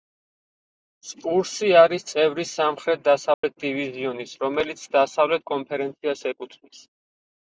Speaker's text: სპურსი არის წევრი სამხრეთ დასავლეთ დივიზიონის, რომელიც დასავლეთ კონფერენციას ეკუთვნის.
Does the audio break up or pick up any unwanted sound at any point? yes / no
yes